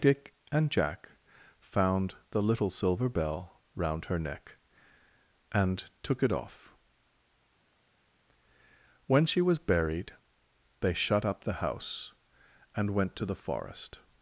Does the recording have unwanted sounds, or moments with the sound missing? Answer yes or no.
no